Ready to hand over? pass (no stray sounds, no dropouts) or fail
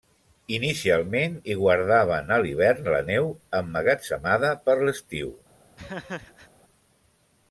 fail